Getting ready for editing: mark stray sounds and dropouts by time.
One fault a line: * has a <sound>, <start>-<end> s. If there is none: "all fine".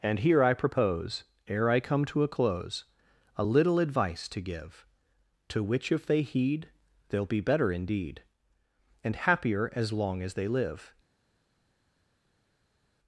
all fine